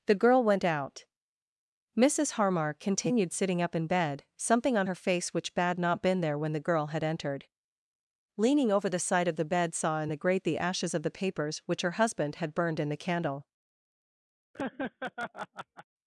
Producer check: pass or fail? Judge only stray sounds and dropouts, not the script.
fail